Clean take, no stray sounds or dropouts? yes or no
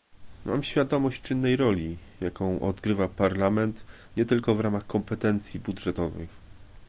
yes